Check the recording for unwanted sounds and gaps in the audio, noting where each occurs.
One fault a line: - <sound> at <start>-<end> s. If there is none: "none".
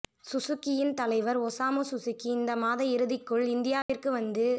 - dropout at 3.8-3.9 s